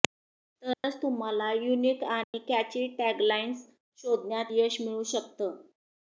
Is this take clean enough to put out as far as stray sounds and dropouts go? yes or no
no